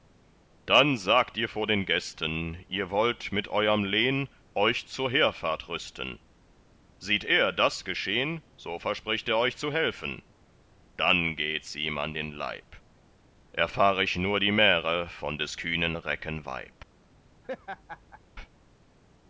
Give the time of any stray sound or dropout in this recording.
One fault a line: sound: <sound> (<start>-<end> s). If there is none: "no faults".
sound: laugh (17.4-18.2 s)